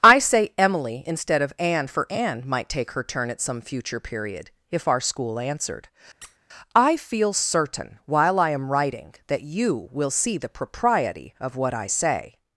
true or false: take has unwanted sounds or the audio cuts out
true